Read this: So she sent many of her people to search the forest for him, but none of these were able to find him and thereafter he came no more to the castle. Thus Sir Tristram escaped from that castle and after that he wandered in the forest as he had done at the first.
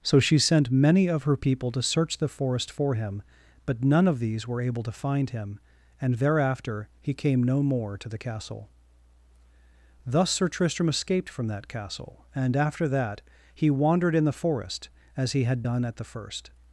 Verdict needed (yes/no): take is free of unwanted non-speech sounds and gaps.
yes